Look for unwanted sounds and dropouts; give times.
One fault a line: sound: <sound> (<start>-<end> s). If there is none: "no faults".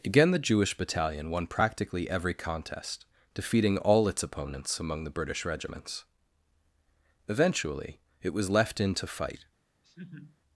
sound: laugh (9.8-10.4 s)